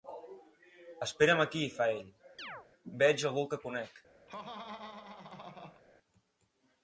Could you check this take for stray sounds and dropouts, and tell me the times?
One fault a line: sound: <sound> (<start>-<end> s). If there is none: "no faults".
sound: chirp (2.4-2.7 s)
sound: laugh (4.3-5.8 s)